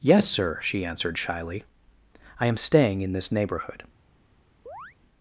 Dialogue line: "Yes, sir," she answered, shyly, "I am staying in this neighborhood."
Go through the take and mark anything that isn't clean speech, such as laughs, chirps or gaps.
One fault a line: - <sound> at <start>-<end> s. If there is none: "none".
- chirp at 4.7-5.0 s